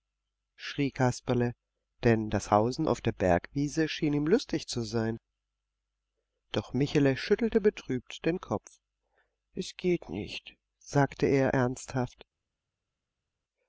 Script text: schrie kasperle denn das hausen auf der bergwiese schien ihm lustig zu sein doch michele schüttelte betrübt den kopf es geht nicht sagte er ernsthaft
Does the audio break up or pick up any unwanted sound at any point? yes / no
no